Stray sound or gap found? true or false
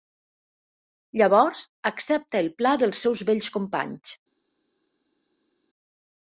false